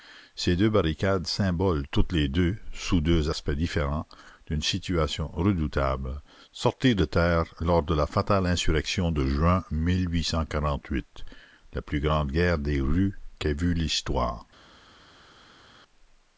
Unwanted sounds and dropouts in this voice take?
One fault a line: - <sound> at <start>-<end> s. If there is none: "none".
none